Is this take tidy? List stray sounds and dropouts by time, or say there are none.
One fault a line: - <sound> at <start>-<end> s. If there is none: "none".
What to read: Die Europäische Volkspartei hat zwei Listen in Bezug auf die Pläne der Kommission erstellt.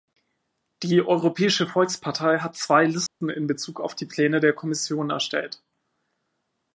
- dropout at 3.1-3.2 s